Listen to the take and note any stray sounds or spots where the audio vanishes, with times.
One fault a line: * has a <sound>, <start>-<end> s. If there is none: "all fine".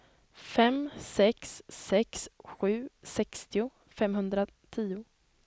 all fine